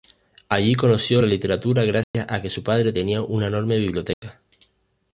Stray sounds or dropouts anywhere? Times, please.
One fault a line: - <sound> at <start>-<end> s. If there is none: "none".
- dropout at 2.0-2.1 s
- dropout at 4.1-4.2 s